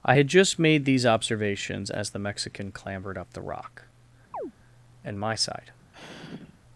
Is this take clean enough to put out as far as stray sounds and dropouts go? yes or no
no